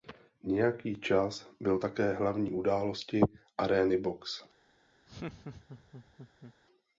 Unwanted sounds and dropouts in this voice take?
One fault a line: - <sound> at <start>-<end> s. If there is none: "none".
- laugh at 5.1-6.5 s